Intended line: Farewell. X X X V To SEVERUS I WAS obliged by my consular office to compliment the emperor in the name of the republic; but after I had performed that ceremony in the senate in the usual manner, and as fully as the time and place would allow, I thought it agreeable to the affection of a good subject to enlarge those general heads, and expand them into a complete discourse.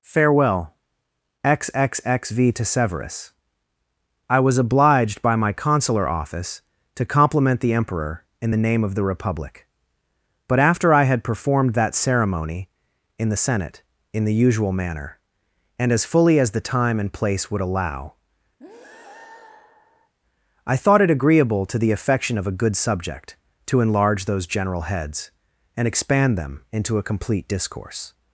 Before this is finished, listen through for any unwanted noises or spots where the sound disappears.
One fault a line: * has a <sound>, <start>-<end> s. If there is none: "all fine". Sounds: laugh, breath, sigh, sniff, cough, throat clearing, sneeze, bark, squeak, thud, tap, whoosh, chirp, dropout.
* has a breath, 18.6-20.1 s